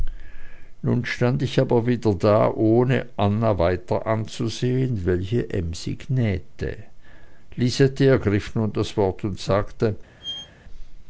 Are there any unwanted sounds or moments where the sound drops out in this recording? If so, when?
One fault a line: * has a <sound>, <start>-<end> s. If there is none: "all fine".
* has a squeak, 10.2-10.5 s